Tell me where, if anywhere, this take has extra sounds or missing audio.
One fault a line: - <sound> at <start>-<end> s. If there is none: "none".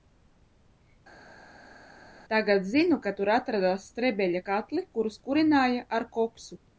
none